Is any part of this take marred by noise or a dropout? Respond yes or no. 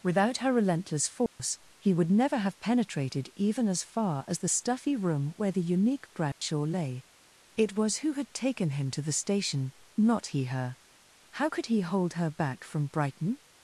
yes